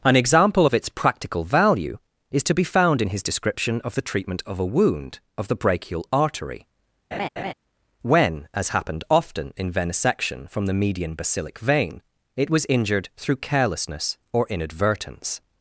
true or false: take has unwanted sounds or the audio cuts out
true